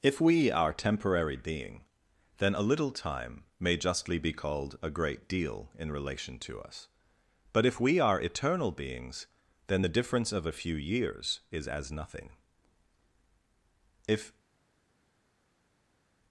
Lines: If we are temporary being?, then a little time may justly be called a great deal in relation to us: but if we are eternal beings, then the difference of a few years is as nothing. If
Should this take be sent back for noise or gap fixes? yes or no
no